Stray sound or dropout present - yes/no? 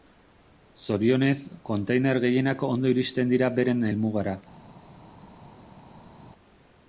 no